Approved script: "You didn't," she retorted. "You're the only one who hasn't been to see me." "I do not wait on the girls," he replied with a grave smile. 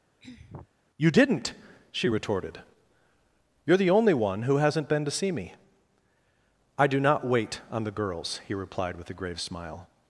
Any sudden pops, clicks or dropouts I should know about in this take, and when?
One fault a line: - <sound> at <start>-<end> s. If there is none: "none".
- throat clearing at 0.2-0.7 s